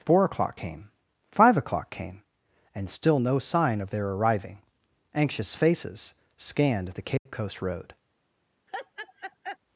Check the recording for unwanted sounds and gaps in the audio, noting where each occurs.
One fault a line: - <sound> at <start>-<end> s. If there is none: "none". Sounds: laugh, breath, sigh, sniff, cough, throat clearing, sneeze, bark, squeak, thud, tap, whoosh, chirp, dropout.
- dropout at 7.2-7.3 s
- laugh at 8.7-9.6 s